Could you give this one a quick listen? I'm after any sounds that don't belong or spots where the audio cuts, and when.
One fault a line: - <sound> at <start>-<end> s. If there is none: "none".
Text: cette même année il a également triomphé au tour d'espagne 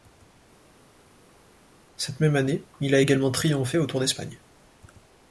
none